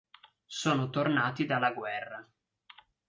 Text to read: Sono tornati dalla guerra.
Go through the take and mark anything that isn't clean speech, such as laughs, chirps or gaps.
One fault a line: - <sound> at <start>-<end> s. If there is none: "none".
none